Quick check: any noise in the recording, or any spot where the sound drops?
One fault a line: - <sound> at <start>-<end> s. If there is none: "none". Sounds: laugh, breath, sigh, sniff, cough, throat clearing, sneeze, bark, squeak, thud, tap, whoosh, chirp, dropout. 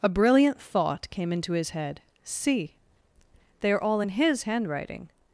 none